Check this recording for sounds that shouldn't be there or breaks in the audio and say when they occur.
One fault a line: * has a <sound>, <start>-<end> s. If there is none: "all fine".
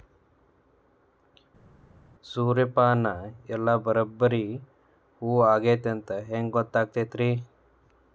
all fine